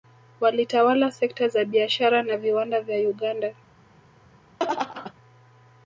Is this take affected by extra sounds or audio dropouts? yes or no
yes